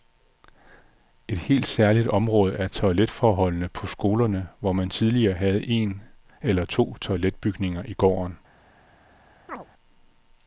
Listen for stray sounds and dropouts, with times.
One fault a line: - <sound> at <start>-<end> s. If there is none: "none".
- chirp at 9.5-9.7 s